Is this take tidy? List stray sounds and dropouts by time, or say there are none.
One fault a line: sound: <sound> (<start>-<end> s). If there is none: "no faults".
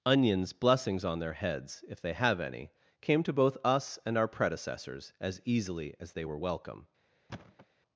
sound: thud (7.3-7.7 s)